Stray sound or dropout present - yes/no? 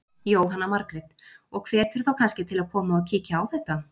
no